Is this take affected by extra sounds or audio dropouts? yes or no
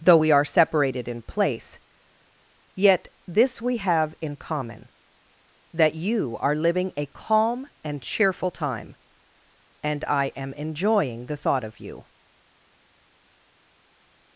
no